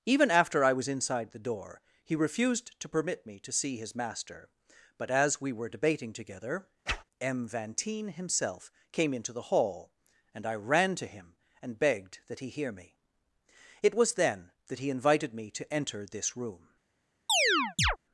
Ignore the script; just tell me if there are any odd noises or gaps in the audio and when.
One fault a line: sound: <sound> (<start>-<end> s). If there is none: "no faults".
sound: whoosh (6.9-7.0 s)
sound: chirp (17.3-18.0 s)